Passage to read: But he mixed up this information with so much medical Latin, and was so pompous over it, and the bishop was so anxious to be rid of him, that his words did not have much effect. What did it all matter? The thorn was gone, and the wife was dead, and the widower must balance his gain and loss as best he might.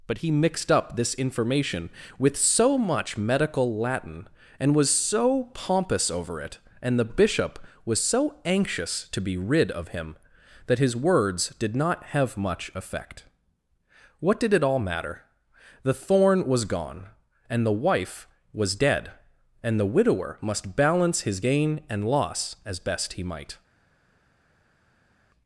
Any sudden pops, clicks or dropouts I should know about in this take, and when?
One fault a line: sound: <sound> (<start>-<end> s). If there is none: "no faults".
no faults